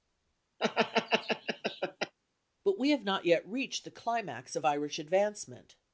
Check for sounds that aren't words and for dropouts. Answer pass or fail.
fail